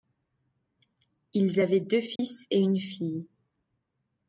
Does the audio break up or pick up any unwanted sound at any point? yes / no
yes